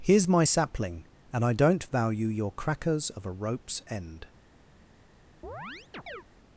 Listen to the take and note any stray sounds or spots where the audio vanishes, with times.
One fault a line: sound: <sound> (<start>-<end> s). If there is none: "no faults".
sound: chirp (5.4-6.2 s)